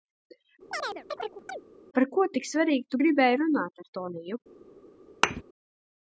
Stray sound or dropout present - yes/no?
yes